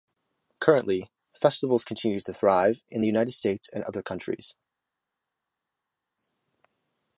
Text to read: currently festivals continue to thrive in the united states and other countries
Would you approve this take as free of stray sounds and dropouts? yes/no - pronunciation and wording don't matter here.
yes